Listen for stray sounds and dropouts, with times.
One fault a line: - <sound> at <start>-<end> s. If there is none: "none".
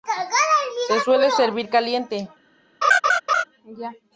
- laugh at 2.8-3.4 s